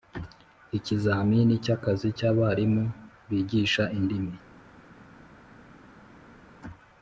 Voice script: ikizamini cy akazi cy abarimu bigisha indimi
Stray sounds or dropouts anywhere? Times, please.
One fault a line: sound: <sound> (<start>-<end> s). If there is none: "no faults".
no faults